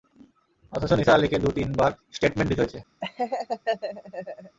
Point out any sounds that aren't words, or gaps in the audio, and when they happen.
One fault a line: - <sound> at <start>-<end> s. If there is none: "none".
- laugh at 3.0-4.6 s